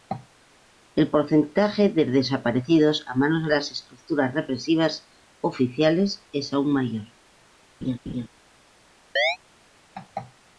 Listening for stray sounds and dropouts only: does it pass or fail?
fail